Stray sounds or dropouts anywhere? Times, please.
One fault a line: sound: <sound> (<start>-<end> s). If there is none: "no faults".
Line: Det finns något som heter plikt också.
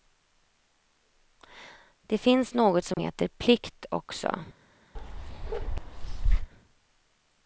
sound: dropout (2.9-3.0 s)
sound: bark (5.0-6.5 s)